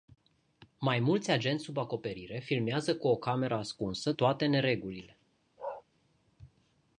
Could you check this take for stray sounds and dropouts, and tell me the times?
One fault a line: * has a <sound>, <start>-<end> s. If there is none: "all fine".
* has a bark, 5.6-5.8 s